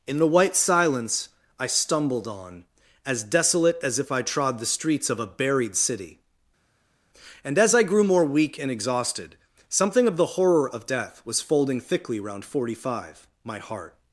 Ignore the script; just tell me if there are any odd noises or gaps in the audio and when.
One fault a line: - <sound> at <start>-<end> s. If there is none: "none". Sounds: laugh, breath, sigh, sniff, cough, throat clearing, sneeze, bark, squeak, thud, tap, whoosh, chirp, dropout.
none